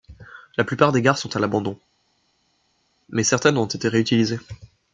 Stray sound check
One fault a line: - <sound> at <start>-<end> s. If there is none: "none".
none